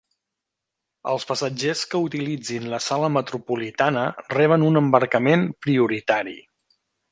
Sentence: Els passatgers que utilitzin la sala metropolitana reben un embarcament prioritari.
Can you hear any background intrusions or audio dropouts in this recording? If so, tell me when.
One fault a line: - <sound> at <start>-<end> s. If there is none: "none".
none